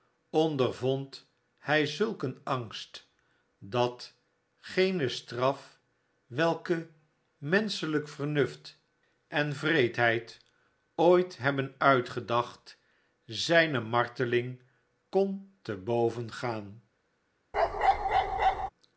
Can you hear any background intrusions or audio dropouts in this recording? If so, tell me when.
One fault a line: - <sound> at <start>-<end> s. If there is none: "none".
- bark at 17.5-18.7 s